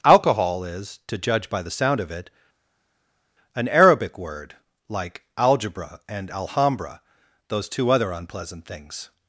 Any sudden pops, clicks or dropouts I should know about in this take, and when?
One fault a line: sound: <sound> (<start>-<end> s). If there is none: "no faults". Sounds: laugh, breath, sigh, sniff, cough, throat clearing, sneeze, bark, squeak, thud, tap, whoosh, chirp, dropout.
no faults